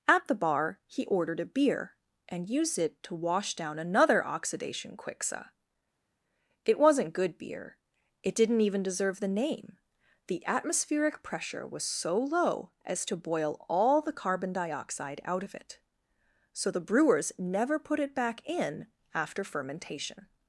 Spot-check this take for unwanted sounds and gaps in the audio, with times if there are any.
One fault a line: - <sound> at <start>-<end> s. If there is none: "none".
none